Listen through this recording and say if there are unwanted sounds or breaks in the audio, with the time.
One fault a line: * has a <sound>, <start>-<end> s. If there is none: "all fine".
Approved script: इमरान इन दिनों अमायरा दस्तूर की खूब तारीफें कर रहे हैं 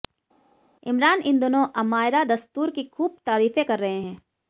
all fine